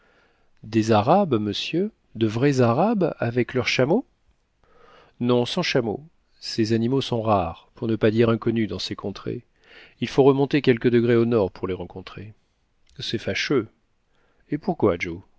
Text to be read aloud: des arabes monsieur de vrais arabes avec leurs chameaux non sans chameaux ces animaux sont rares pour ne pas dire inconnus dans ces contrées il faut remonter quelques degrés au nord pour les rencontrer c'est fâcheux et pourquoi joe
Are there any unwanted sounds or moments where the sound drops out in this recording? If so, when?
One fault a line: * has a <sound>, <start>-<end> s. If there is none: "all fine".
all fine